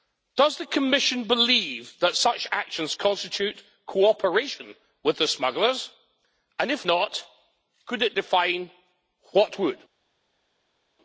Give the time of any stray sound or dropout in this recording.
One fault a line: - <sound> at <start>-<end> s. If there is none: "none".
none